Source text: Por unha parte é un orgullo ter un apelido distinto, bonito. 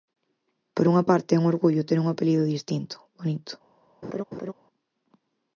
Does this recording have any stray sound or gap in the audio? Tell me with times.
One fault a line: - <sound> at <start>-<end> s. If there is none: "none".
- laugh at 4.0-4.5 s